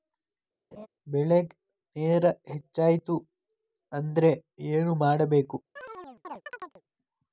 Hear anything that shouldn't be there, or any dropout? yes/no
yes